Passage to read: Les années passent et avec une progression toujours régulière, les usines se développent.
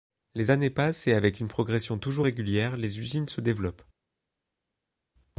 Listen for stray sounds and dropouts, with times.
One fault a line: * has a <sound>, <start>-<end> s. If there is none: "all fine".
all fine